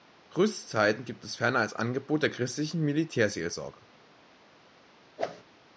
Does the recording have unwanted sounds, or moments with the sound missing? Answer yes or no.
yes